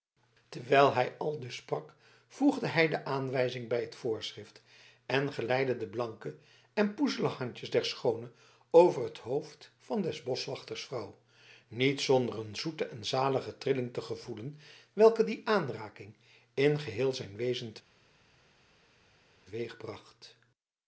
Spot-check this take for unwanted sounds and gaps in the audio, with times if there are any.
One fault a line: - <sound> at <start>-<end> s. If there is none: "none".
none